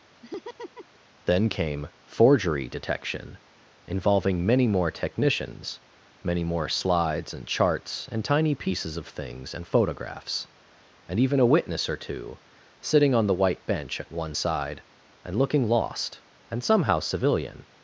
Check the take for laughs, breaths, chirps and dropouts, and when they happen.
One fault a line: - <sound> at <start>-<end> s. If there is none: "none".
- laugh at 0.2-1.0 s